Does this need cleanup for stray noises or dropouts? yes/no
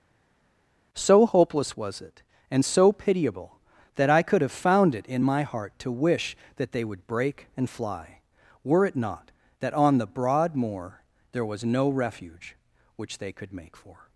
no